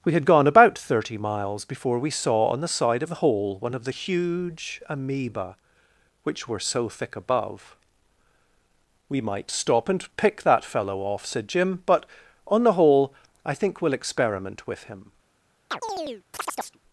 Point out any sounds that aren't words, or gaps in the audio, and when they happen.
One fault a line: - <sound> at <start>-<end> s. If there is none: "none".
- chirp at 15.7-16.8 s